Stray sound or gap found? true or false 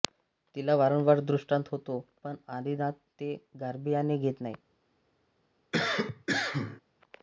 true